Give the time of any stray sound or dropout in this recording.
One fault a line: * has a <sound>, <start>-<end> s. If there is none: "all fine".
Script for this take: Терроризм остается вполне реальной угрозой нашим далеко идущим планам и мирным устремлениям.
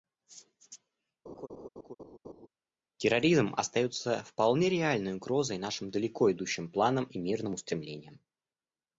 * has a laugh, 1.3-2.5 s